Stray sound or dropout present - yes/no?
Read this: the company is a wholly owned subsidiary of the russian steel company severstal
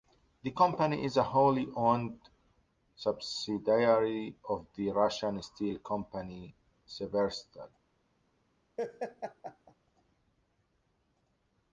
yes